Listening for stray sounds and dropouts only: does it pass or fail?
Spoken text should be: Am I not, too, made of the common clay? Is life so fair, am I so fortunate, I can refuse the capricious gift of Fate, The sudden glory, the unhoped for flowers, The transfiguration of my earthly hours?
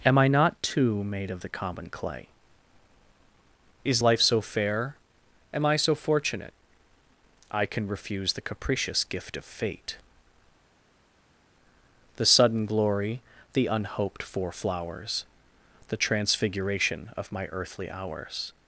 pass